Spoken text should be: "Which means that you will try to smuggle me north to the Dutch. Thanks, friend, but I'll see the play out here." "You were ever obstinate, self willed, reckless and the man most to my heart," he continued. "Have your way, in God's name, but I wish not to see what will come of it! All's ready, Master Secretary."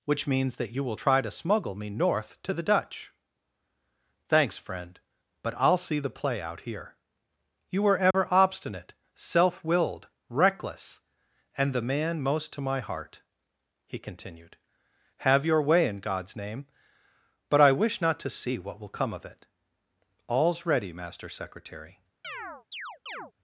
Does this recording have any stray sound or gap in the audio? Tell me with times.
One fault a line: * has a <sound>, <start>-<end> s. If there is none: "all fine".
* has a dropout, 8.1-8.1 s
* has a chirp, 22.2-23.3 s